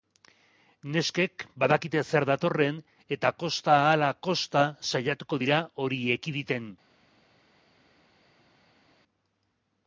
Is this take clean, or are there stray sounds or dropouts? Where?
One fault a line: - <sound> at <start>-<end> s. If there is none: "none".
none